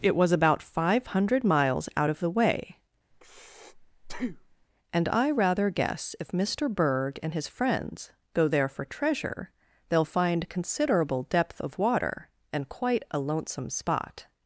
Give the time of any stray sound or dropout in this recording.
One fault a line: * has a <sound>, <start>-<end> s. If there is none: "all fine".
* has a breath, 3.1-4.7 s